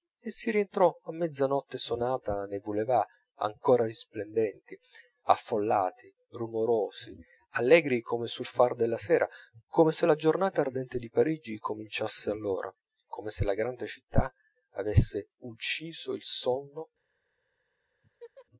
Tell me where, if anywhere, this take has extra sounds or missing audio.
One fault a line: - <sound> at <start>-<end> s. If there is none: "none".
- laugh at 18.0-18.5 s